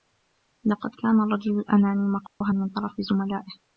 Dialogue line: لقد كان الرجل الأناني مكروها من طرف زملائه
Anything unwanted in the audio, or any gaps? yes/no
yes